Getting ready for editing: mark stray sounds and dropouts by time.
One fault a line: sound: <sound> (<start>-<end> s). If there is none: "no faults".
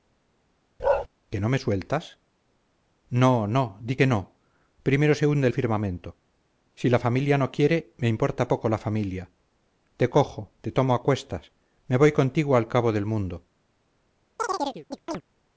sound: bark (0.8-1.1 s)
sound: chirp (14.4-15.2 s)